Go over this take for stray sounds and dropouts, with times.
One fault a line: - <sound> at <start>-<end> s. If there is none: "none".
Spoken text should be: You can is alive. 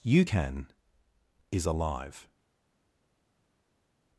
none